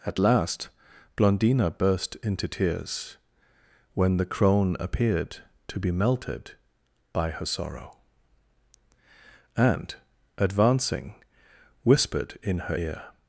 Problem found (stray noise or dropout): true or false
false